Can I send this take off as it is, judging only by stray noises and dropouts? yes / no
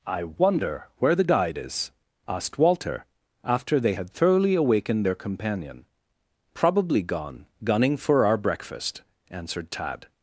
yes